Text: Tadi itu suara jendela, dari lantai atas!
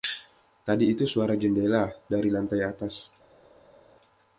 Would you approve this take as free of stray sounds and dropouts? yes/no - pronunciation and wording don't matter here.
yes